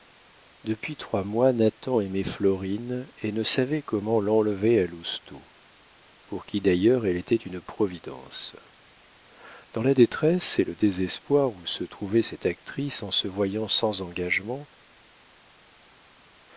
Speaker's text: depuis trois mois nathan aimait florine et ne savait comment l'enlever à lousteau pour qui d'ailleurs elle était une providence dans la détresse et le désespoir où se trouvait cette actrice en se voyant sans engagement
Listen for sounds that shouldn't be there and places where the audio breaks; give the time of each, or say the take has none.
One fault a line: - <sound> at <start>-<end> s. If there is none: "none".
none